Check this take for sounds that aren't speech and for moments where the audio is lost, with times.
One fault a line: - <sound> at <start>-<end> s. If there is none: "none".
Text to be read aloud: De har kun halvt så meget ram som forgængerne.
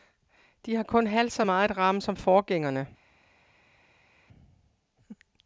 none